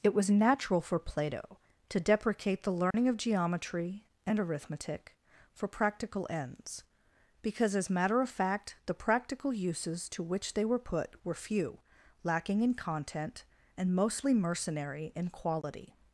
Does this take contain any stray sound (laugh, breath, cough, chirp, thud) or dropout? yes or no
yes